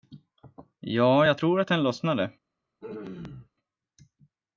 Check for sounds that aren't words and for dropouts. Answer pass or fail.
fail